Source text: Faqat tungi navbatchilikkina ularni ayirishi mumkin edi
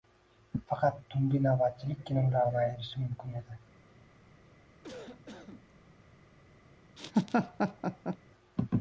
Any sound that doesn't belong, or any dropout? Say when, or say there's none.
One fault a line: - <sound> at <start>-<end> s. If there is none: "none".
- cough at 4.8-5.7 s
- laugh at 7.0-8.2 s